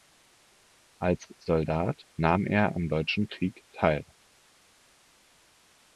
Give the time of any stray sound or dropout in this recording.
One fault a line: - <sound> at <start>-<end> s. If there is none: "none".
none